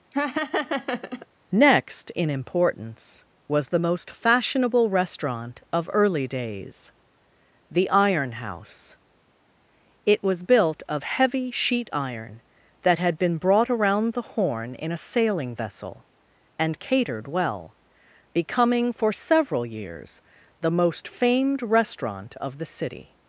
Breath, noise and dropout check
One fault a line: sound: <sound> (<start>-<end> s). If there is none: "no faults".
sound: laugh (0.1-1.3 s)